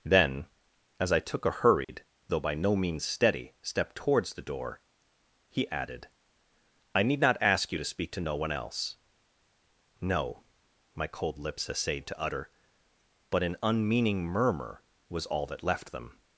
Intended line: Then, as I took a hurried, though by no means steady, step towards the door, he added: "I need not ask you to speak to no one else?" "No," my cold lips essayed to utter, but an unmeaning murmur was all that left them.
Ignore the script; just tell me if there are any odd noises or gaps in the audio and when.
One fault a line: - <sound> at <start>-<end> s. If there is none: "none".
- dropout at 1.8-1.9 s